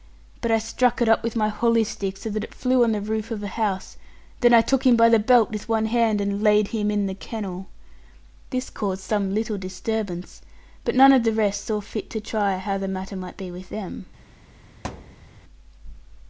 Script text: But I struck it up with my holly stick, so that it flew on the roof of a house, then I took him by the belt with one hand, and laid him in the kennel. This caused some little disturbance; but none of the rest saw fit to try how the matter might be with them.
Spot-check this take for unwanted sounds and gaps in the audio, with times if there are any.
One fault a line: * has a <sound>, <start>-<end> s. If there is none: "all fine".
* has a thud, 14.8-15.3 s